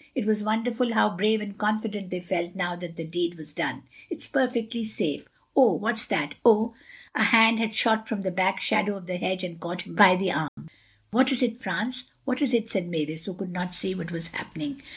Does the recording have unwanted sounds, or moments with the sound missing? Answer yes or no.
yes